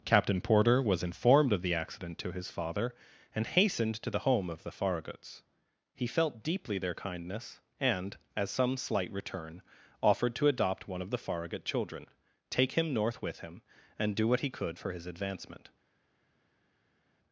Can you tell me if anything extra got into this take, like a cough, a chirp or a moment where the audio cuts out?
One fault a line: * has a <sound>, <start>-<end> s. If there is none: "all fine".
all fine